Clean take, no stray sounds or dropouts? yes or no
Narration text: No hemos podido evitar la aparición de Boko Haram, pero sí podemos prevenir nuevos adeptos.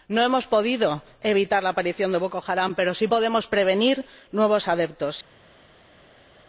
yes